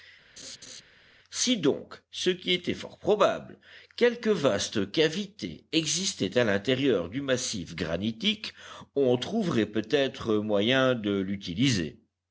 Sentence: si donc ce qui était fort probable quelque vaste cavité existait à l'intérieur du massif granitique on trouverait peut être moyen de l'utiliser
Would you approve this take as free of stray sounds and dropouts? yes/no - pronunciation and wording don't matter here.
no